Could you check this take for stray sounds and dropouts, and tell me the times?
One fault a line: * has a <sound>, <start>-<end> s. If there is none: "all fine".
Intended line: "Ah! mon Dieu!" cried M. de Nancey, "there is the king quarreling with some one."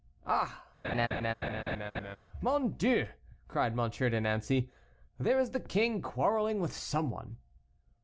* has a laugh, 0.8-2.2 s